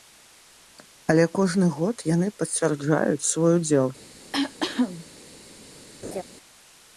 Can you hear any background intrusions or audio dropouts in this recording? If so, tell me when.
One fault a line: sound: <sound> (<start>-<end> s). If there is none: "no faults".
sound: cough (4.3-5.1 s)
sound: laugh (6.0-6.2 s)